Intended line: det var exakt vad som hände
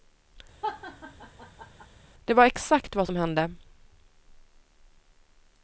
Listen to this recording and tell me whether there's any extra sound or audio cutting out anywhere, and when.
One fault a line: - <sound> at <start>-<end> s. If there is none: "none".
- laugh at 0.6-1.9 s